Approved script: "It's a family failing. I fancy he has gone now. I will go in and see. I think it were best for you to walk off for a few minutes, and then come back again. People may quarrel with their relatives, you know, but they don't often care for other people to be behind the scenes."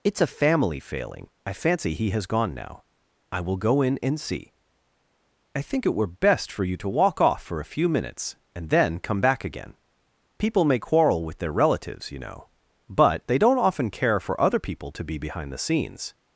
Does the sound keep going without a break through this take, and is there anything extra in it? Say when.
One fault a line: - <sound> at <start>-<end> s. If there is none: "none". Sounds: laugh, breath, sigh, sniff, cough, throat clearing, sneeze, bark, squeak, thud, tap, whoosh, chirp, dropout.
none